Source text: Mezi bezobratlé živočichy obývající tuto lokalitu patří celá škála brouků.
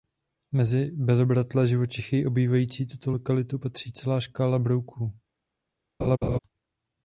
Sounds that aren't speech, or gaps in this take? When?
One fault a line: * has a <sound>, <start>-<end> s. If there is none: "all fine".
* has a laugh, 6.0-6.4 s